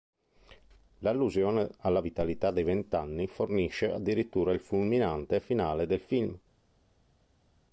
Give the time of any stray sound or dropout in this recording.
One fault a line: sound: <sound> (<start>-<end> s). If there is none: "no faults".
no faults